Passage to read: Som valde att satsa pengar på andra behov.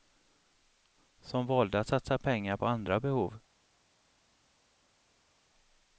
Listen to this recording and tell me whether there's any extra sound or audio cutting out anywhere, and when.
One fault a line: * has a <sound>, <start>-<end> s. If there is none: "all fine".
all fine